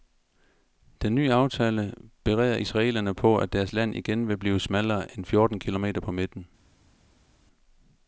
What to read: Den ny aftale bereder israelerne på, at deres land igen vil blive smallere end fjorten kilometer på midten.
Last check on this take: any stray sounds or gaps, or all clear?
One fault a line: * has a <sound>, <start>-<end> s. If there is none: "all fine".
all fine